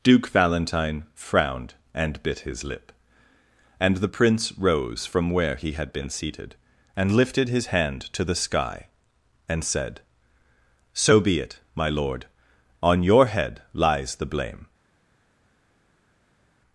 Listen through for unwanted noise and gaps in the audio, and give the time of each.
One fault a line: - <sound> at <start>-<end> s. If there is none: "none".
none